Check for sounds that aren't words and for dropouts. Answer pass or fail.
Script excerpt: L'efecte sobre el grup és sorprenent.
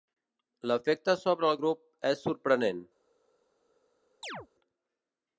fail